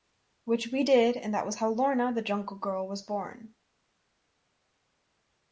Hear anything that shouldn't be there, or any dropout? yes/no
no